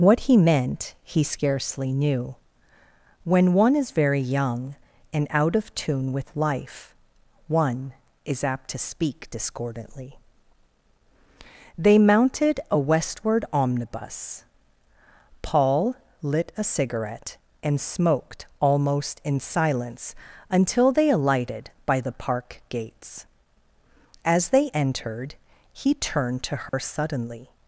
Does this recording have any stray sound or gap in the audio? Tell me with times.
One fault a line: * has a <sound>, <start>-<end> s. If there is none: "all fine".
* has a dropout, 26.7-26.7 s